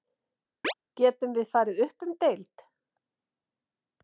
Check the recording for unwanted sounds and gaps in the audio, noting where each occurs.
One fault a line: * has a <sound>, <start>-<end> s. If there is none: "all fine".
* has a chirp, 0.6-0.7 s